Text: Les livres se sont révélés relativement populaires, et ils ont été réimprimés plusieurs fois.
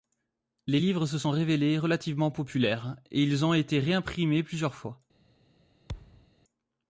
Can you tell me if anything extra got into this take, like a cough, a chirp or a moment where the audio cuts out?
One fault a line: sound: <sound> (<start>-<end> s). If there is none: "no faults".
sound: thud (5.9-6.3 s)